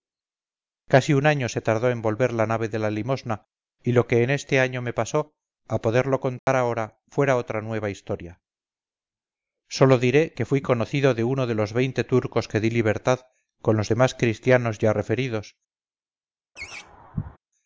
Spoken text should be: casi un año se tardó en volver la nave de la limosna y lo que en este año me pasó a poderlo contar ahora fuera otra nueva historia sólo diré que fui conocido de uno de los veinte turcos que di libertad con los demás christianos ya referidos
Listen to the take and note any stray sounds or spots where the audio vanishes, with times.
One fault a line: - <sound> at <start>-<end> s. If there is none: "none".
- dropout at 6.4-6.5 s
- laugh at 16.6-17.4 s